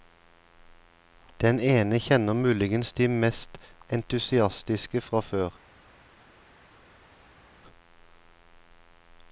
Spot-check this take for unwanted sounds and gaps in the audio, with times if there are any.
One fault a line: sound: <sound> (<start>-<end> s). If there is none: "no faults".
no faults